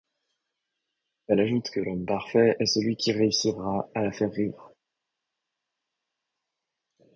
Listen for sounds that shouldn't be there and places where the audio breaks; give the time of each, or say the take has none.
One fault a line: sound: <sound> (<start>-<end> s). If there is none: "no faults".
no faults